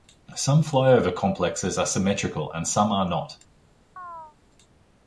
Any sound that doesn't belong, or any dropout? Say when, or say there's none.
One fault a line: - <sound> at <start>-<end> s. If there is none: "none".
- chirp at 4.0-4.4 s